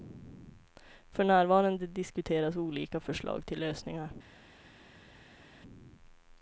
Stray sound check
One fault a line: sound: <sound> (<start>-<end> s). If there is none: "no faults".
no faults